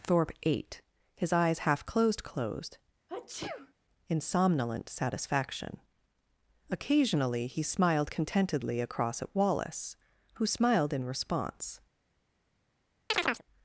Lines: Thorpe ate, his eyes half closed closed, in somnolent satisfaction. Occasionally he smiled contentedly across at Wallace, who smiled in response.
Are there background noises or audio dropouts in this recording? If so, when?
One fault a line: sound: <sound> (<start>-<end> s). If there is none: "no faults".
sound: sneeze (3.1-3.7 s)
sound: chirp (13.1-13.4 s)